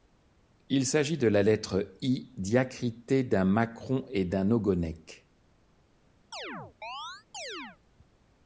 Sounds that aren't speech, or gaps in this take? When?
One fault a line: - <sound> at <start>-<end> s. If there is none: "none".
- chirp at 6.3-7.8 s